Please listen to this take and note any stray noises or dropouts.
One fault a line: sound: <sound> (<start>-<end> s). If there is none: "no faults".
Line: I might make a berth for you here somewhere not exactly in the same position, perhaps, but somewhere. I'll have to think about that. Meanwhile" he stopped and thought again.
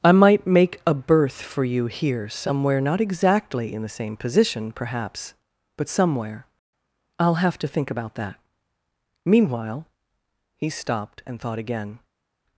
no faults